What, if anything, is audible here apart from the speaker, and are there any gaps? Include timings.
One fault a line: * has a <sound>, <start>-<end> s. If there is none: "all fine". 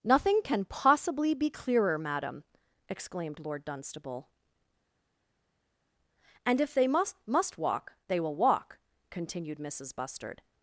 all fine